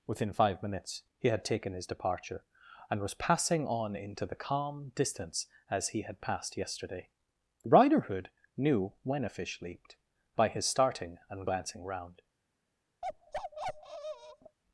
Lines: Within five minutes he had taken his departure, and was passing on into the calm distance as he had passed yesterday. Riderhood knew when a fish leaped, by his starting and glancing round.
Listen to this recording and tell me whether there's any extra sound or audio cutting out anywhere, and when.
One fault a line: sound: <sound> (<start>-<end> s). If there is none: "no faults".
sound: bark (13.0-14.6 s)